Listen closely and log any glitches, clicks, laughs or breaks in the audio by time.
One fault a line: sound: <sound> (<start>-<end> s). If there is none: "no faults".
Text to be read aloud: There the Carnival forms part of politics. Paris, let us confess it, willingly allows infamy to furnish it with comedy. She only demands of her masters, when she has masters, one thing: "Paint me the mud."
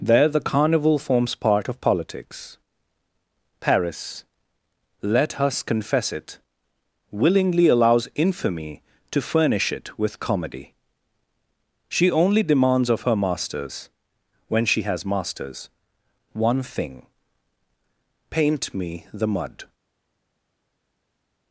no faults